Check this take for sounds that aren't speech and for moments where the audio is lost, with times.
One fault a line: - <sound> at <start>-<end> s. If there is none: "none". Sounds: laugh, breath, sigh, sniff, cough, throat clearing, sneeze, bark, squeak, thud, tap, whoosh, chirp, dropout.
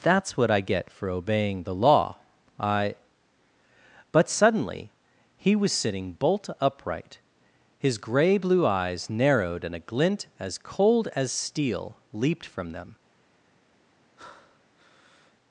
- breath at 14.2-15.3 s